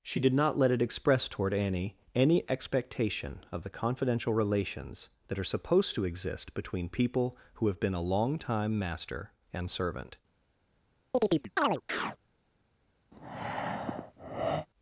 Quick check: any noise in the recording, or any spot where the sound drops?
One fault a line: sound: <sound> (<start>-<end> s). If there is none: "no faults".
sound: chirp (11.1-12.2 s)
sound: breath (13.1-14.7 s)